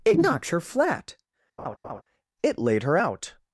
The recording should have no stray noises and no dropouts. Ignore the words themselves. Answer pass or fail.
fail